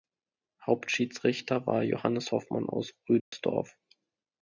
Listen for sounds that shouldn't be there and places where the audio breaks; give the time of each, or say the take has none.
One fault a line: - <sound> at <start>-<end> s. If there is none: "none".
- dropout at 3.2-3.3 s